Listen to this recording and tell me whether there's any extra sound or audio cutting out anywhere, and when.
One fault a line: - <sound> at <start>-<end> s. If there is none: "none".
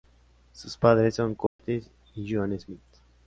- dropout at 1.5-1.6 s